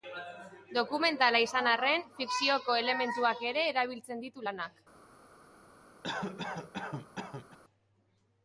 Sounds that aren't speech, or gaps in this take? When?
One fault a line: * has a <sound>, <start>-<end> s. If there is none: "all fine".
* has a cough, 6.0-7.6 s